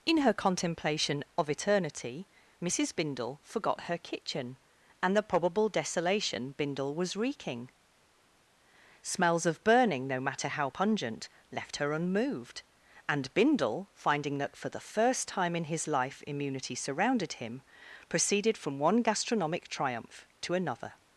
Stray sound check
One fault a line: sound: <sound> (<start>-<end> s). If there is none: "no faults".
no faults